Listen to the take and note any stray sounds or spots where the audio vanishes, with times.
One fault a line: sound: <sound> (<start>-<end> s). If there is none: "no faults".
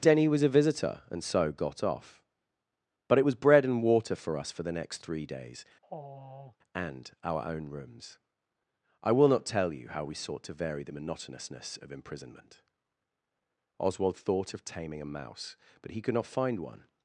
sound: sigh (5.8-6.6 s)